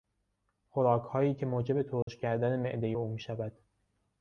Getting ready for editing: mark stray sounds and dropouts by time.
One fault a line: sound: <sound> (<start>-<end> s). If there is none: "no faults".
sound: dropout (2.0-2.1 s)